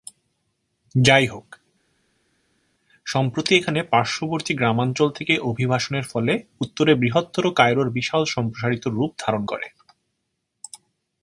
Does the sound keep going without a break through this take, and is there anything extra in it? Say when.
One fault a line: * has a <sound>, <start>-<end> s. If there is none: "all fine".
all fine